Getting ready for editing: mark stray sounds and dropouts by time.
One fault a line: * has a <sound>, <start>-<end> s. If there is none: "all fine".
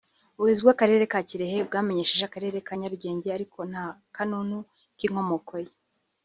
all fine